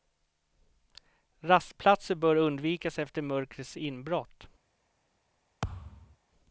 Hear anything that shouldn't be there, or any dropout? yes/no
yes